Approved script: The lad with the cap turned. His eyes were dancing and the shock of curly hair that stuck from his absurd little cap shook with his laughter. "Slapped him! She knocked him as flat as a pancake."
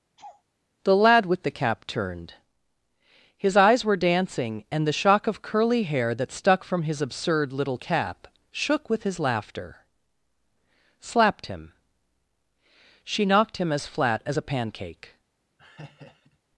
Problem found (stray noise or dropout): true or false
true